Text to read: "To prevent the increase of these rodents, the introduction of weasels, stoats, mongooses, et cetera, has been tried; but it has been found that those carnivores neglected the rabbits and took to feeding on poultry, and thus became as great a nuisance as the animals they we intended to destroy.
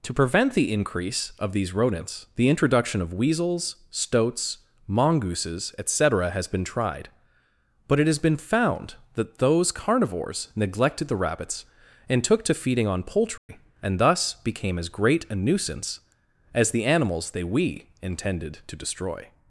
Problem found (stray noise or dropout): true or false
true